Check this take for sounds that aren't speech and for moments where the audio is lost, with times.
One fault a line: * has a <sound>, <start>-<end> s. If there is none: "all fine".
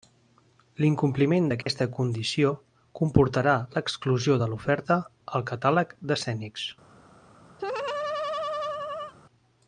* has a dropout, 1.6-1.7 s
* has a laugh, 7.6-9.1 s